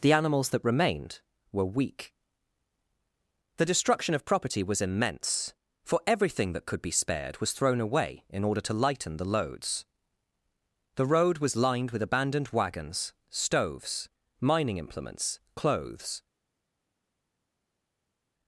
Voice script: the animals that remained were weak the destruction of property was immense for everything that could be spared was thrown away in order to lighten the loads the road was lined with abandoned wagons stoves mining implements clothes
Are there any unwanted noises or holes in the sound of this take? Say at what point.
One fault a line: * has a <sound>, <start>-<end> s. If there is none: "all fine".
all fine